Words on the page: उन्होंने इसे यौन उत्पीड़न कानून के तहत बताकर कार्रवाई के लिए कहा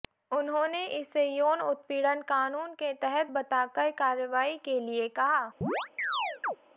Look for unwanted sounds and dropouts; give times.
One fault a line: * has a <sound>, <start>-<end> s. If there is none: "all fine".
* has a chirp, 5.6-6.6 s